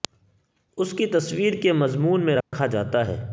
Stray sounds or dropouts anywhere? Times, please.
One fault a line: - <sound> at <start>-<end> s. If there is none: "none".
- dropout at 2.4-2.5 s